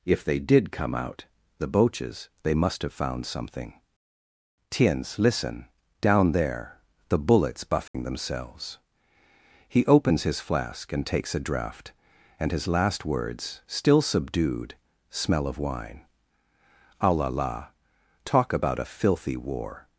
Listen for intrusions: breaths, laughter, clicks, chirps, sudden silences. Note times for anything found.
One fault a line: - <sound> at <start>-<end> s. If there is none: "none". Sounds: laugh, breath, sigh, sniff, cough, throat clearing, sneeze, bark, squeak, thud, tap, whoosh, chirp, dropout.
- dropout at 7.9-7.9 s